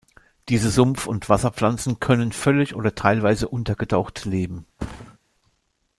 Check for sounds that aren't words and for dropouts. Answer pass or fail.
fail